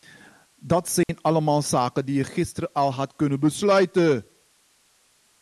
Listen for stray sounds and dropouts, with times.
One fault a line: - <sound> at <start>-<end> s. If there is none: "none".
- dropout at 1.0-1.1 s